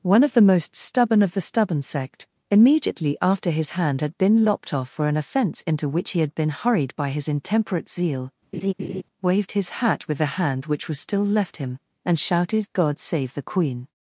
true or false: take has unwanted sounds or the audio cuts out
true